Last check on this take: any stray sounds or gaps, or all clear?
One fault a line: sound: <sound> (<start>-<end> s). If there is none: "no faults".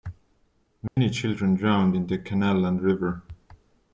sound: dropout (0.9-1.0 s)